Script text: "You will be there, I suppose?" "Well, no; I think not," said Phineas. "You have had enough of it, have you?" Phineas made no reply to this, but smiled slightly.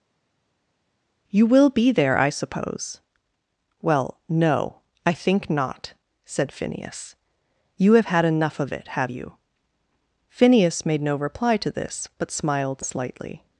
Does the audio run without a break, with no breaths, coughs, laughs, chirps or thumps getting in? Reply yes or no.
yes